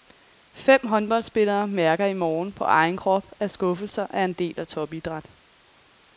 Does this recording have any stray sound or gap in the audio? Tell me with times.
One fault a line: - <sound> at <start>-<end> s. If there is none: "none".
none